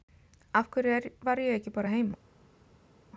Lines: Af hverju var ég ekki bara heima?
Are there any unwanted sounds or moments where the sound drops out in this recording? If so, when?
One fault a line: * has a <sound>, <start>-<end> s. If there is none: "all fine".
all fine